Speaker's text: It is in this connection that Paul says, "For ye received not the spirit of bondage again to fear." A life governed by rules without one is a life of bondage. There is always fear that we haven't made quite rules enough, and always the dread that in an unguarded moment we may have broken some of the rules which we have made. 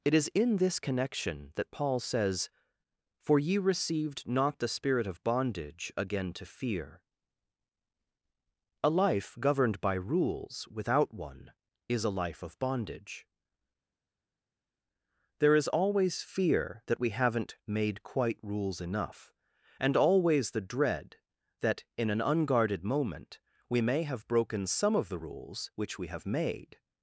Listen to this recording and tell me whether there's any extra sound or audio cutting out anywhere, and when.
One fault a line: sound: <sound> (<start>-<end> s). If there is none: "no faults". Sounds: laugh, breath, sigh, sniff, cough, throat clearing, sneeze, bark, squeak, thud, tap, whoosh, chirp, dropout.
no faults